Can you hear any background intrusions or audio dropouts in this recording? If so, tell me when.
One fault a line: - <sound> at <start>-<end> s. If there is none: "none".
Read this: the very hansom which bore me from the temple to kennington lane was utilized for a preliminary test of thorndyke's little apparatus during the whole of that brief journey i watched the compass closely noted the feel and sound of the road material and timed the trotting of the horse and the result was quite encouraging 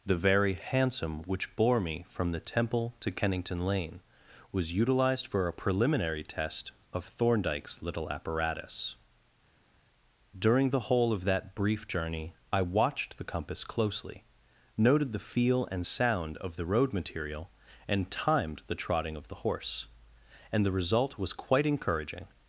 none